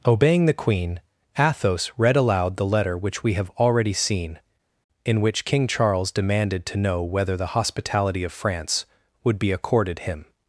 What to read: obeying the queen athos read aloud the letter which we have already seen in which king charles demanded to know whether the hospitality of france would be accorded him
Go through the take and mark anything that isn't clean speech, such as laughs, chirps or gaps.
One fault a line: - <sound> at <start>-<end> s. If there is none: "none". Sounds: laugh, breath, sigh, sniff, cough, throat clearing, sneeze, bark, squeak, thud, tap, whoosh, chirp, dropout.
none